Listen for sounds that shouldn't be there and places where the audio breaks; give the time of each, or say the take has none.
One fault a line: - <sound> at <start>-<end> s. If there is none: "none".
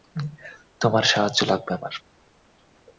none